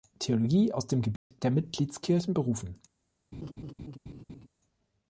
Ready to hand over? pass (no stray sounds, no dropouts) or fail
fail